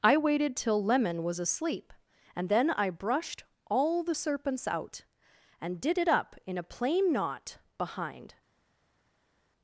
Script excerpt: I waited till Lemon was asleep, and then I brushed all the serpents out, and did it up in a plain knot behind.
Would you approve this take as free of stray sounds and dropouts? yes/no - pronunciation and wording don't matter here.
yes